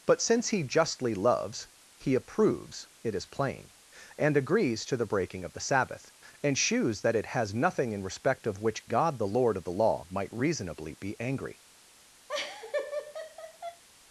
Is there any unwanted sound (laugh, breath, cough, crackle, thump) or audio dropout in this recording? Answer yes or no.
yes